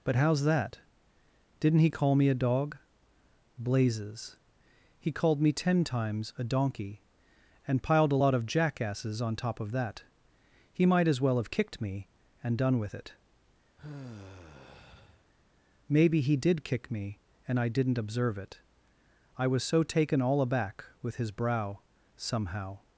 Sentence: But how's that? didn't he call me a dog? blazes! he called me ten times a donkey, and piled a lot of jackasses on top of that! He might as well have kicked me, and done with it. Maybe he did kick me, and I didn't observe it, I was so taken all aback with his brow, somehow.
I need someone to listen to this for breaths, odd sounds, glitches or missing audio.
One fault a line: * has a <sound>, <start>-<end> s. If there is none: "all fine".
* has a sigh, 13.8-15.2 s